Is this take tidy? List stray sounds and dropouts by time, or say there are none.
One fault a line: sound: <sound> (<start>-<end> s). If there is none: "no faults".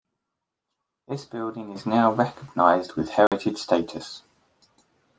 sound: dropout (3.3-3.3 s)